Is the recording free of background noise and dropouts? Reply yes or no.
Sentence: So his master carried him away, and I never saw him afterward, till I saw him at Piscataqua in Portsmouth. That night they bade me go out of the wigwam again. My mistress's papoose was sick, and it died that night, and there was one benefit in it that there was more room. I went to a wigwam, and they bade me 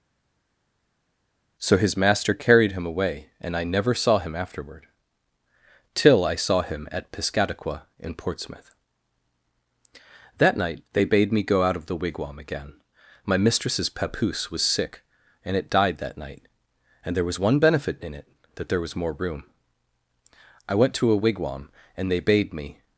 yes